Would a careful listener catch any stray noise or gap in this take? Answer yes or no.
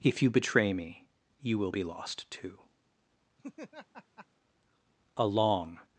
yes